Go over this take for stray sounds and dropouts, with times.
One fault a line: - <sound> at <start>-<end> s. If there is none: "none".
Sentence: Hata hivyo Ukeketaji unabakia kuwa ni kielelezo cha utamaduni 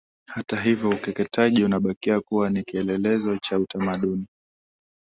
none